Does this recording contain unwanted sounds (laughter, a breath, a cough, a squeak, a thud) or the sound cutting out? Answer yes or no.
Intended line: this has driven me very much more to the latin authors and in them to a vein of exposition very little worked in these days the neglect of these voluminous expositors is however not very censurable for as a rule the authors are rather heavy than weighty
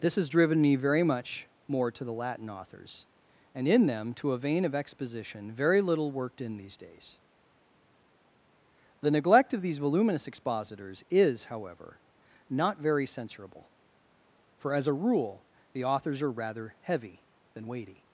no